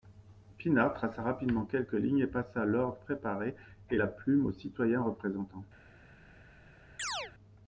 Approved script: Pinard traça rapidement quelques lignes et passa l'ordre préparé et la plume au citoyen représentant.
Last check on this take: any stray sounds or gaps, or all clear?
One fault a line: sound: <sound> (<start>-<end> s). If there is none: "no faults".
sound: chirp (7.0-7.3 s)